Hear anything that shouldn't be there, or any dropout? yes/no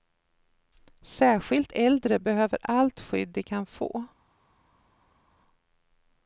no